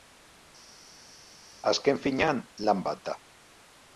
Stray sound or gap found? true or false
false